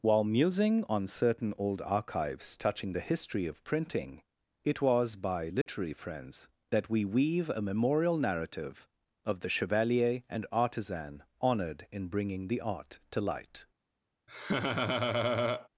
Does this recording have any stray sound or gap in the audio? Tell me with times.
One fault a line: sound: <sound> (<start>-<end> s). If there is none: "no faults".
sound: dropout (5.6-5.7 s)
sound: laugh (14.3-15.7 s)